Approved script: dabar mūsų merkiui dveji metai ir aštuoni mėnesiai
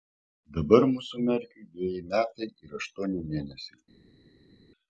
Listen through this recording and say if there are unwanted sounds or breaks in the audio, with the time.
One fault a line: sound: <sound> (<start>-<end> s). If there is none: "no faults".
no faults